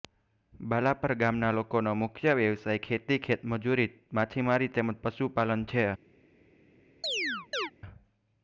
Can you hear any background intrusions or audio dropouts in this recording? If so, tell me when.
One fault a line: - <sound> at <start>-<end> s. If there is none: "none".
- chirp at 7.0-7.7 s